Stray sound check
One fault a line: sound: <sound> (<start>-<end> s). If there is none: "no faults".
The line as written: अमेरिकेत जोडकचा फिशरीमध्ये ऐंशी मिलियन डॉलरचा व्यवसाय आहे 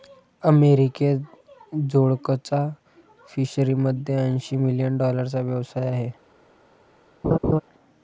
sound: laugh (7.2-7.6 s)